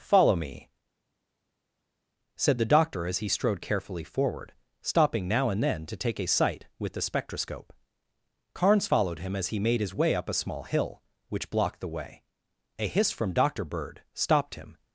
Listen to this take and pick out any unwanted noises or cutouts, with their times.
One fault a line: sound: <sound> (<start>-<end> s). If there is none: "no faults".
no faults